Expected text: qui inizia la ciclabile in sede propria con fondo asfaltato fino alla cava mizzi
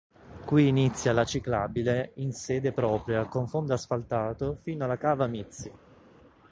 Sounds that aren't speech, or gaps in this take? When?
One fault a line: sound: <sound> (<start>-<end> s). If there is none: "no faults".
no faults